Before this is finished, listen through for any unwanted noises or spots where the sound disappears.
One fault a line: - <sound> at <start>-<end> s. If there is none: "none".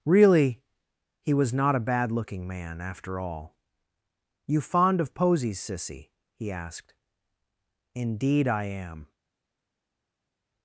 none